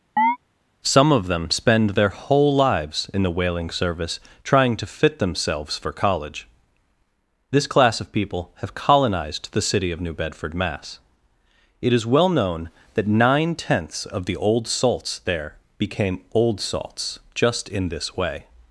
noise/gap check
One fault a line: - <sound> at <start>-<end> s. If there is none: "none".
- chirp at 0.2-0.4 s